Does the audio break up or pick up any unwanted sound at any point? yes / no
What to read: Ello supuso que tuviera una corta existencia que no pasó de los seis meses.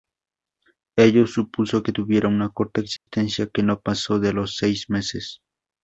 yes